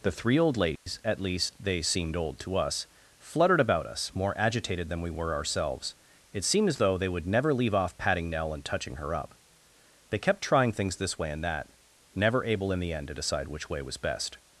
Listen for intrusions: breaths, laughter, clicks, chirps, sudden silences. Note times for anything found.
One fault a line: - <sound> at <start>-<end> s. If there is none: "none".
- dropout at 0.8-0.9 s